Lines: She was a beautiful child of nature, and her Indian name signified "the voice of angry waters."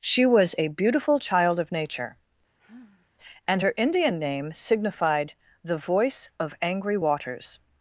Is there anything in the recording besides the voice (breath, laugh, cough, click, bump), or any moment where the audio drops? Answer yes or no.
yes